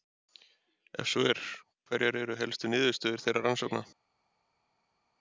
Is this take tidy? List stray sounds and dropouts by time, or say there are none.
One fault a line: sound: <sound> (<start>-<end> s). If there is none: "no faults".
no faults